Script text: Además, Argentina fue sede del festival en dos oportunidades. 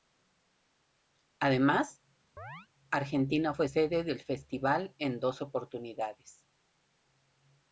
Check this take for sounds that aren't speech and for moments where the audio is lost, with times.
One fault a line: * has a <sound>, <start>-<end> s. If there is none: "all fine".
* has a chirp, 2.4-2.7 s